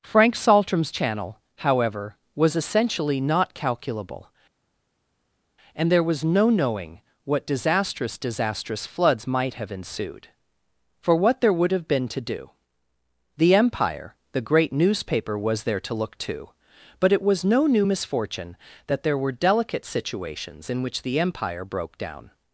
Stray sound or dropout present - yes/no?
no